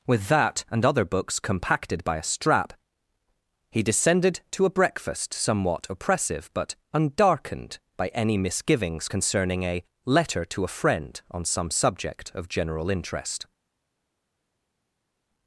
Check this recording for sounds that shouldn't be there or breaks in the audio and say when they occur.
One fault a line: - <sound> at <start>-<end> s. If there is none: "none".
none